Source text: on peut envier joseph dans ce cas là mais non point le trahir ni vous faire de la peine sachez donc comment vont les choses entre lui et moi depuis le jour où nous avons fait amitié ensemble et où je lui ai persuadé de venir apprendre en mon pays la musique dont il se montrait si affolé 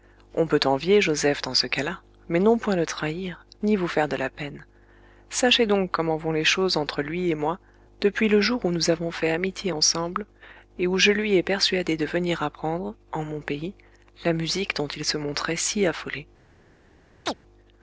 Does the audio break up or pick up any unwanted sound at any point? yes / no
yes